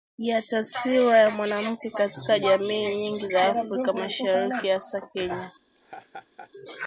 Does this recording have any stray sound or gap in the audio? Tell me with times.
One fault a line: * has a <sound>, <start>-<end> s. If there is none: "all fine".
* has a laugh, 5.7-6.5 s